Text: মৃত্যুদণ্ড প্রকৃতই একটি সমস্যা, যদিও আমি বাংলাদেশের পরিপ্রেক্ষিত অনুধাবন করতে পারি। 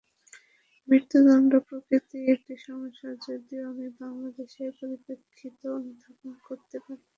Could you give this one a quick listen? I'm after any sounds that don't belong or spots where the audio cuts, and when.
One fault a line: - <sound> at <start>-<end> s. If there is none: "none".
none